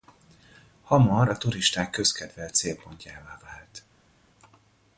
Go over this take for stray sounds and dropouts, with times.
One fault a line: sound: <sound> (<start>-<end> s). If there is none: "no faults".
no faults